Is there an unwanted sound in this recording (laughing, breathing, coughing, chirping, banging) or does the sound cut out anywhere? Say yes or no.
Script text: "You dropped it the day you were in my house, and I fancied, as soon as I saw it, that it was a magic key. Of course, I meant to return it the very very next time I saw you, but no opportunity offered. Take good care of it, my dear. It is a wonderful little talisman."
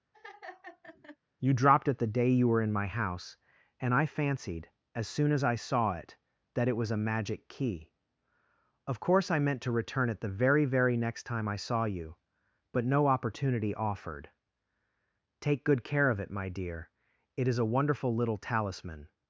yes